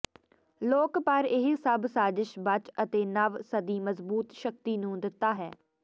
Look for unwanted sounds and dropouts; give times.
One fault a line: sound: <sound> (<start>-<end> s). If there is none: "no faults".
no faults